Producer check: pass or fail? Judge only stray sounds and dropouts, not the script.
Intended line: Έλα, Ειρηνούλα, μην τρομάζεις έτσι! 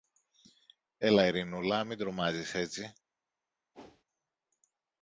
fail